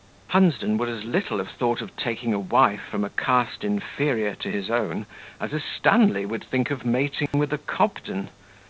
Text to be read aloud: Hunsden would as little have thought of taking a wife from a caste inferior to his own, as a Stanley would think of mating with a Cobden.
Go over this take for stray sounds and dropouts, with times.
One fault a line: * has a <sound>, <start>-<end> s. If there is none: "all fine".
* has a dropout, 7.3-7.3 s